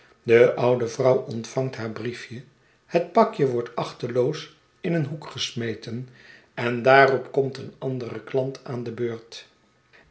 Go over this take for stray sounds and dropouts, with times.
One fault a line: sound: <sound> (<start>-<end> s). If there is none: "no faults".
no faults